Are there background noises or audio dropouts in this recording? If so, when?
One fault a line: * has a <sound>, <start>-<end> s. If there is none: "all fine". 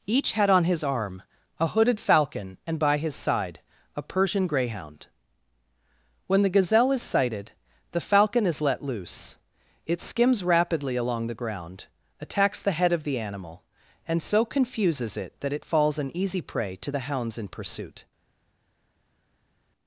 all fine